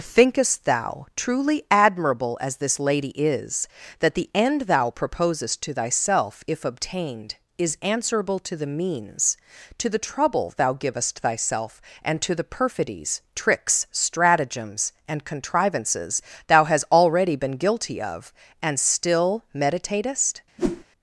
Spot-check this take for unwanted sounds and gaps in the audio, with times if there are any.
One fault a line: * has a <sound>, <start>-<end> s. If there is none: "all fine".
* has a whoosh, 20.6-20.8 s